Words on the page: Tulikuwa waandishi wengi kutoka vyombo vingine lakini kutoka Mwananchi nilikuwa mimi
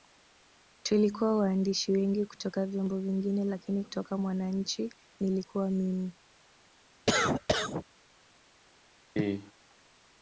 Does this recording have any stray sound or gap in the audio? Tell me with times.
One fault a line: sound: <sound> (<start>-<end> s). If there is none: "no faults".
sound: cough (7.1-7.8 s)
sound: cough (9.2-9.5 s)